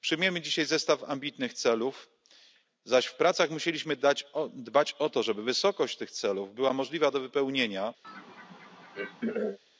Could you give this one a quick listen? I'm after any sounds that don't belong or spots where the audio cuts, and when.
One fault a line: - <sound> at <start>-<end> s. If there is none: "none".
- throat clearing at 8.0-9.6 s